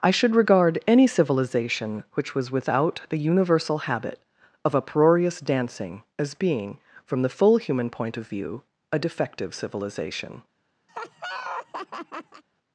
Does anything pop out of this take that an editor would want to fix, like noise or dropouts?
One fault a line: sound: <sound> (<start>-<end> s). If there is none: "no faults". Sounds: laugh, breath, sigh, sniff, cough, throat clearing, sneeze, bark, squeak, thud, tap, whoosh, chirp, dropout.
sound: laugh (10.9-12.4 s)